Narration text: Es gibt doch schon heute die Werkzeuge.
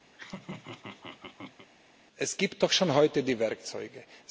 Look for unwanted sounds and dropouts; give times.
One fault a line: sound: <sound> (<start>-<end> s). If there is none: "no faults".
sound: laugh (0.1-1.7 s)